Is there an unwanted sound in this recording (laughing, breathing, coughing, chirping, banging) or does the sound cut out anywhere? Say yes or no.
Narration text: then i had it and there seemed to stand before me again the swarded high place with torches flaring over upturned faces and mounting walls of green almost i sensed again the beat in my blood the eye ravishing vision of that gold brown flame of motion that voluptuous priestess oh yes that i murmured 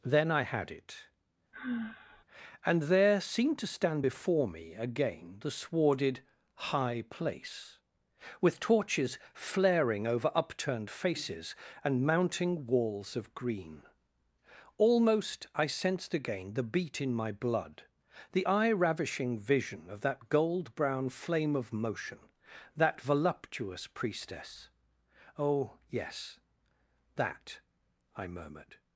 yes